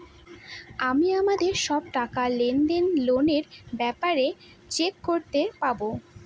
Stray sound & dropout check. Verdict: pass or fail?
pass